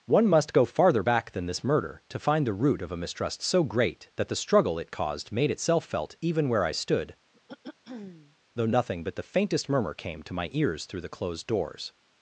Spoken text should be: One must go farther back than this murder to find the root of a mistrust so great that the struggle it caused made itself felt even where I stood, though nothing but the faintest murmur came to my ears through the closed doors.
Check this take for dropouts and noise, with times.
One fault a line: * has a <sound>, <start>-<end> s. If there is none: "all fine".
* has a throat clearing, 7.3-8.4 s